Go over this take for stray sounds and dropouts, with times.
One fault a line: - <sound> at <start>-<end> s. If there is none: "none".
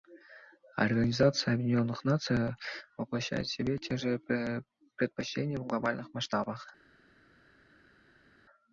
none